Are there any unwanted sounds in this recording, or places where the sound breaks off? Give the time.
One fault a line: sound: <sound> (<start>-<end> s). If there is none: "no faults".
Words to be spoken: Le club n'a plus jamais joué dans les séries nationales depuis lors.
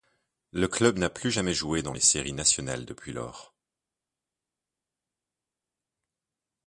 no faults